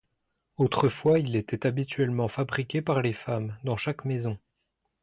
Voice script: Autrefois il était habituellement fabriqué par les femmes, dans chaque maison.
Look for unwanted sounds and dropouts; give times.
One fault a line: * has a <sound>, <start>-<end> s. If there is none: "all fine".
all fine